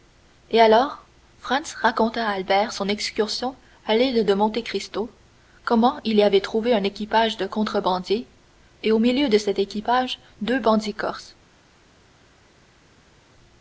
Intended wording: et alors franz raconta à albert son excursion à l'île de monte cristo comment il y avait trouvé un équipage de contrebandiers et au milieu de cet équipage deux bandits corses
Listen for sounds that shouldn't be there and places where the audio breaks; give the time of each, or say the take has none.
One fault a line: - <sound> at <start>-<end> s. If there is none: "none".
none